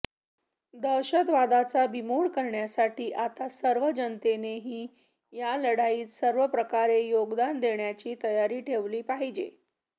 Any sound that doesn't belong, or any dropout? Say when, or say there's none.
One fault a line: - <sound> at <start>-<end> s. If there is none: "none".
none